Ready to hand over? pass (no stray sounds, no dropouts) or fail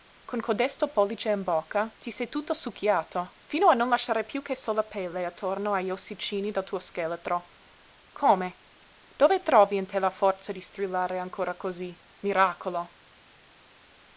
pass